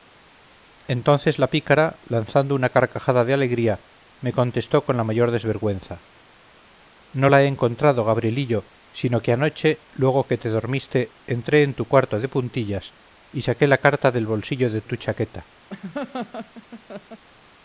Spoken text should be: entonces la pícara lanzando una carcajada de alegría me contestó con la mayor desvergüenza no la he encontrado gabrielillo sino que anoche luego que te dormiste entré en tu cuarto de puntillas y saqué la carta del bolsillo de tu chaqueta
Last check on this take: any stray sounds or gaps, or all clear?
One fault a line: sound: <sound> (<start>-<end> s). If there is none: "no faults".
sound: laugh (15.7-17.2 s)